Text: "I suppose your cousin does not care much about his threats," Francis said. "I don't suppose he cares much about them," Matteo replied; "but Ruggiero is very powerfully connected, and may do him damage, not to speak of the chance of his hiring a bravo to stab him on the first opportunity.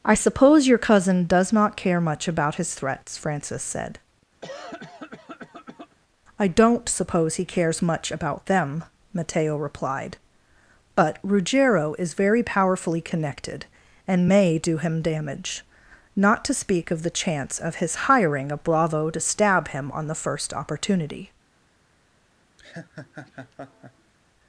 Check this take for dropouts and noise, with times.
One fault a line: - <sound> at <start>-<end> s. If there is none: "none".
- cough at 4.4-6.0 s
- laugh at 22.6-24.1 s